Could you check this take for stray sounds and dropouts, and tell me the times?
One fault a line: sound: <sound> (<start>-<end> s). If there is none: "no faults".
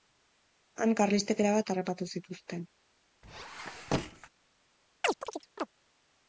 sound: squeak (3.2-4.3 s)
sound: chirp (5.0-5.7 s)